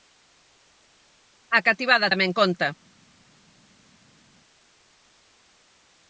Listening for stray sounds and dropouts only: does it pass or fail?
pass